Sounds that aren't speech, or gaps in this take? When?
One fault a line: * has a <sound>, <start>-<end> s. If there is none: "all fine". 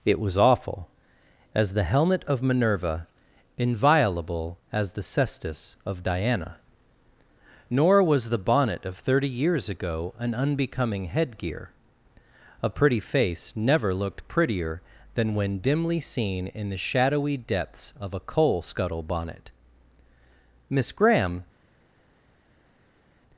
all fine